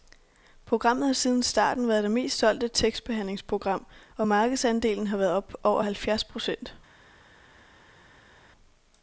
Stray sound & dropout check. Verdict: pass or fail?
pass